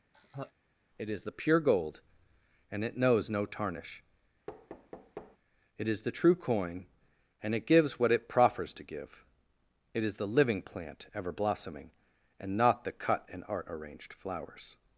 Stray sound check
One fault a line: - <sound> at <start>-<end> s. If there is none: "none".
- laugh at 0.1-0.5 s
- thud at 4.5-5.4 s